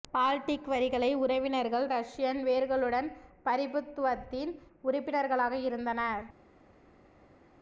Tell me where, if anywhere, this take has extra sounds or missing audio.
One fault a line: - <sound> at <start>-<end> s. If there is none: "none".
none